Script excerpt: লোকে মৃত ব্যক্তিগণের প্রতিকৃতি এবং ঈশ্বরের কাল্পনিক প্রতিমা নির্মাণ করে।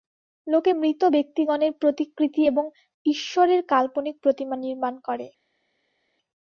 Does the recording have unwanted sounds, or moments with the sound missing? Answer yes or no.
no